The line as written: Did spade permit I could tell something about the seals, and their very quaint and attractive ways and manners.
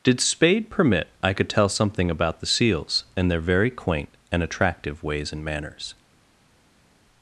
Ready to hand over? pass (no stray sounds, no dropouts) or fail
pass